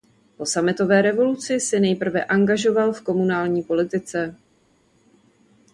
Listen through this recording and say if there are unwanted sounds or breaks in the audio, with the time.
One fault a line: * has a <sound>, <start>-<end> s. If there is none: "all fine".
all fine